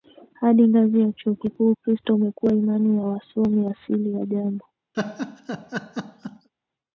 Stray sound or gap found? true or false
true